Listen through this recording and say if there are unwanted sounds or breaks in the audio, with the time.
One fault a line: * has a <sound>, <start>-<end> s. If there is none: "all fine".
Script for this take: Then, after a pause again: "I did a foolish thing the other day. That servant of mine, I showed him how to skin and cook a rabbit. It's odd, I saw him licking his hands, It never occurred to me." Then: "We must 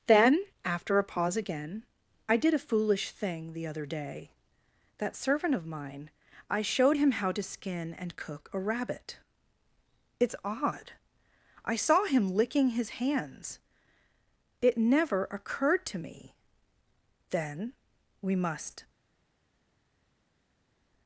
all fine